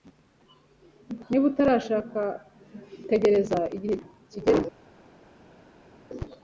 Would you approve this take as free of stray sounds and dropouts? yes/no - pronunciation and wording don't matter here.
yes